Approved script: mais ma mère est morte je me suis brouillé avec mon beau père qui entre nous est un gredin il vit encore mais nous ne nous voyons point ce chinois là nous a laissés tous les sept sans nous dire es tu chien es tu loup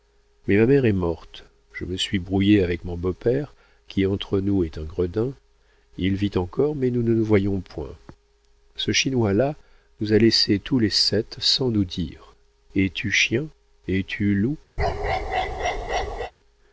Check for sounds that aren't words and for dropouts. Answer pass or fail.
fail